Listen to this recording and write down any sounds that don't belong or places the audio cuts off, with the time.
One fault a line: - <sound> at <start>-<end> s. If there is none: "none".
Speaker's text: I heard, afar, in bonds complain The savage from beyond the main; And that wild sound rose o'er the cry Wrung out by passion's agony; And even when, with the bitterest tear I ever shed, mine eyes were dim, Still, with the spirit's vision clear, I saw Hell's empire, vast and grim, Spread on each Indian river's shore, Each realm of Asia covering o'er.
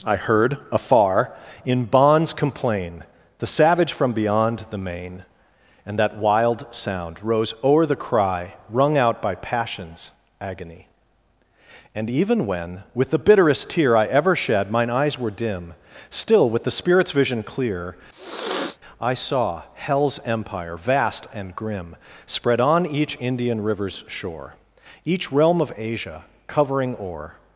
- sniff at 18.1-18.8 s